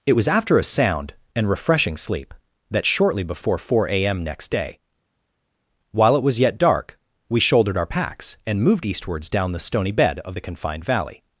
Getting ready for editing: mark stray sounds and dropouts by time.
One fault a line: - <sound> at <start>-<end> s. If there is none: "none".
none